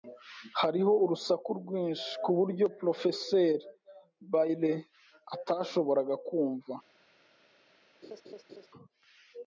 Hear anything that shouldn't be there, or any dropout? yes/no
yes